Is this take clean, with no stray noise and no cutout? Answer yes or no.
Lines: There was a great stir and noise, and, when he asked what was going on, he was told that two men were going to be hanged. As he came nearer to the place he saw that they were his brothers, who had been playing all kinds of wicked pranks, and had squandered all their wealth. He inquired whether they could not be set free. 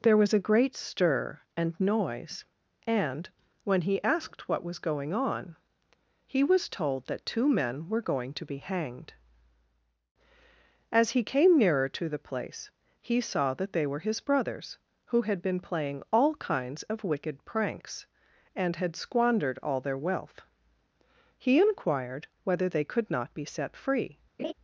no